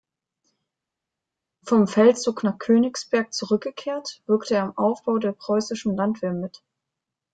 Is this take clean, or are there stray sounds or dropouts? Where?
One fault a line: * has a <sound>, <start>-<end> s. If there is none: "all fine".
all fine